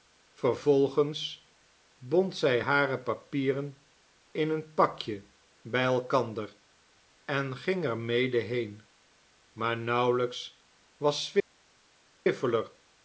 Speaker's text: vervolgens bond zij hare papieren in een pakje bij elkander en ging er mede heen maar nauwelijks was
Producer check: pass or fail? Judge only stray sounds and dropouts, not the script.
pass